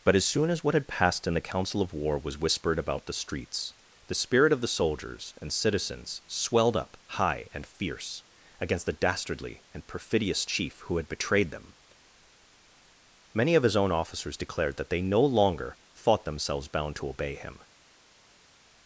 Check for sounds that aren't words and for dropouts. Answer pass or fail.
pass